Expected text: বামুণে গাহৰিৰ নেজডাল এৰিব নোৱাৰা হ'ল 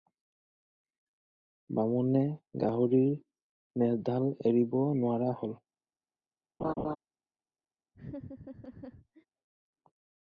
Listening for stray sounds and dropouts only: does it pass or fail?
fail